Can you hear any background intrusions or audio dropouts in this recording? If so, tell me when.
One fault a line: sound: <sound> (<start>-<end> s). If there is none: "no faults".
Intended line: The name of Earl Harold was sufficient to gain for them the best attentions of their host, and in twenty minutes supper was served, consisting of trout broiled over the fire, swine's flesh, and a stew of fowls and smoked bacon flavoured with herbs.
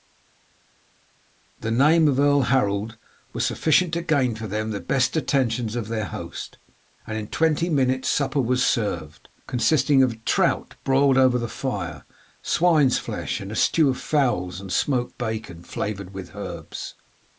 no faults